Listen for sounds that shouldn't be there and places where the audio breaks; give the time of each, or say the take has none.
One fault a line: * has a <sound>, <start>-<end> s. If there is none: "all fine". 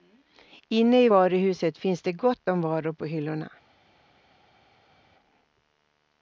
all fine